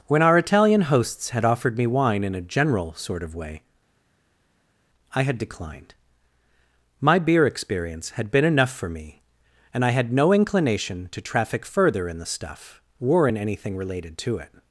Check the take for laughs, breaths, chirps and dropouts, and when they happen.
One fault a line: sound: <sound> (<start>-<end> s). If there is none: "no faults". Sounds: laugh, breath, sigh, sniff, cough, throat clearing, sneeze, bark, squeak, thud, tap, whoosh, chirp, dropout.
no faults